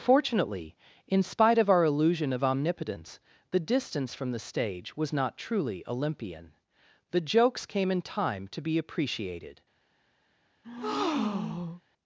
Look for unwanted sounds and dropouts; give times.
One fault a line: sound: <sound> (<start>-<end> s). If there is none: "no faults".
sound: breath (10.6-11.8 s)